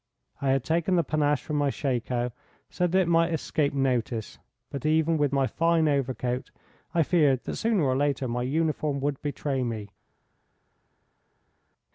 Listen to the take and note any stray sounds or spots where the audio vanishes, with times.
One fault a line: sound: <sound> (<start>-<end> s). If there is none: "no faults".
no faults